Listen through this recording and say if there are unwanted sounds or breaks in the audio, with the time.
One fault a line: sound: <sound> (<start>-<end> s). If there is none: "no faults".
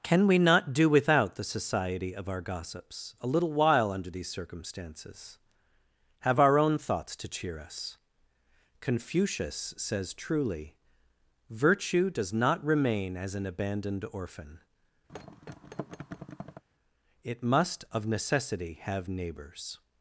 sound: thud (15.1-16.6 s)